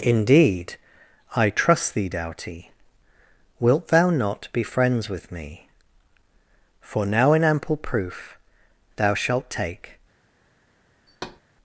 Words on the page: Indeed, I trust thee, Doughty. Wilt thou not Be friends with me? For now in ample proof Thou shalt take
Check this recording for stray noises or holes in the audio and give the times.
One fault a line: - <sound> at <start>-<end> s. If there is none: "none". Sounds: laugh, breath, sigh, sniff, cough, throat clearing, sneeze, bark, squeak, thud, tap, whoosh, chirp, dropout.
- thud at 11.1-11.4 s